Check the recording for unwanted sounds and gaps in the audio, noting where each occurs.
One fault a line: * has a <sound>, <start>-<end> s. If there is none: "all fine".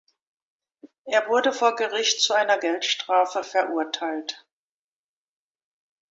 all fine